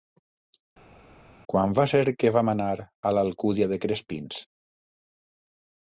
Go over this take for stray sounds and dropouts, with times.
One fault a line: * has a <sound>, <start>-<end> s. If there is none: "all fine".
all fine